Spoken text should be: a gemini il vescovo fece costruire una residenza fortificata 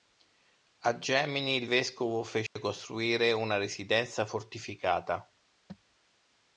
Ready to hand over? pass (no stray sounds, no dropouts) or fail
fail